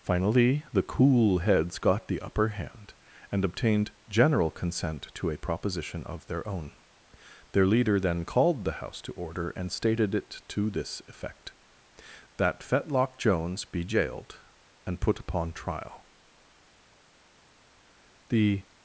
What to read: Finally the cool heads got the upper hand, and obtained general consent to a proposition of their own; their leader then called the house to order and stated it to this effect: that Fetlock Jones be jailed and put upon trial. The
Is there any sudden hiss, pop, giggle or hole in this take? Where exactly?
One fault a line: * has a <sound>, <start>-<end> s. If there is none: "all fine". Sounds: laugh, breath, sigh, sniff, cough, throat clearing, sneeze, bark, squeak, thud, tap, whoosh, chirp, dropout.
all fine